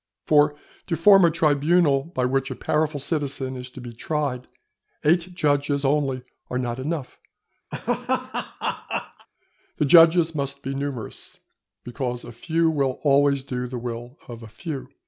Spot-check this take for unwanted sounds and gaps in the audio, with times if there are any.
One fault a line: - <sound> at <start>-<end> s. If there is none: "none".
- laugh at 7.7-9.3 s